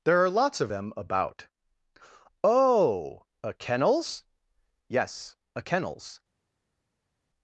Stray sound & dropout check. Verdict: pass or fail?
pass